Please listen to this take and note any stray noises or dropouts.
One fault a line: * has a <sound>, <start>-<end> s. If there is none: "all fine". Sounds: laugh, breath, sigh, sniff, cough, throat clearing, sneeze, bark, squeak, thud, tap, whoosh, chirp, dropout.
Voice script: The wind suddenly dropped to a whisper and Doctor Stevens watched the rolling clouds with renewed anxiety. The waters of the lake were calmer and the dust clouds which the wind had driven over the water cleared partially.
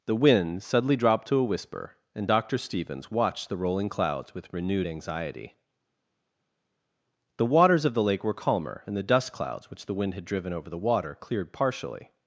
all fine